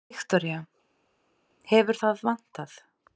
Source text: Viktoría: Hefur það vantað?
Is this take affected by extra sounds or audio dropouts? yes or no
no